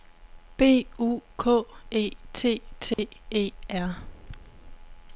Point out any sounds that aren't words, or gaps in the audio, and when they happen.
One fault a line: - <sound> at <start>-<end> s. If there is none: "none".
- dropout at 2.9-3.0 s